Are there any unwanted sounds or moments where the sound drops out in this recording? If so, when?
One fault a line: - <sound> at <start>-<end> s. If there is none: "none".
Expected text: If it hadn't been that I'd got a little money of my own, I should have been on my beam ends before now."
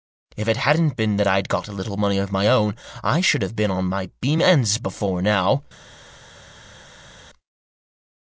none